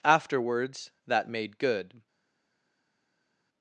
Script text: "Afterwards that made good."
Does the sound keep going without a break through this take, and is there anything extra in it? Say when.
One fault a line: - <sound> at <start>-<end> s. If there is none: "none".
none